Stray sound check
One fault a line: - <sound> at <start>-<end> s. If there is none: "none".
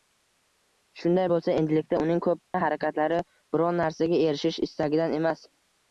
- dropout at 2.4-2.5 s